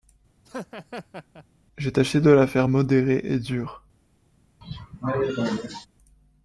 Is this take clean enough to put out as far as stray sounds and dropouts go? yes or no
no